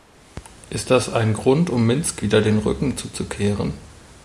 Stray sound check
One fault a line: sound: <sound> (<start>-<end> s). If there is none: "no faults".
no faults